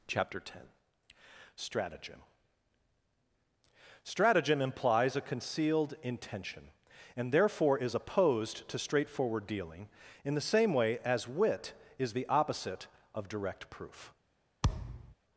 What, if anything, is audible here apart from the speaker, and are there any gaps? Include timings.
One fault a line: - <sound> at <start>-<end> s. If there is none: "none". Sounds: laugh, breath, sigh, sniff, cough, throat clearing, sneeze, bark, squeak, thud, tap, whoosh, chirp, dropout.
- thud at 14.6-15.1 s